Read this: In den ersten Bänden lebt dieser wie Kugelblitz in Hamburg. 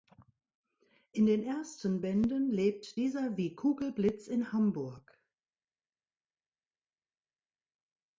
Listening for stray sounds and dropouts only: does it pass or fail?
pass